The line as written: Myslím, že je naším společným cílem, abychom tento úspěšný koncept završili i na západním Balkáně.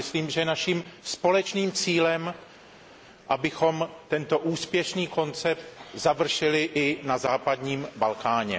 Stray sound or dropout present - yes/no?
no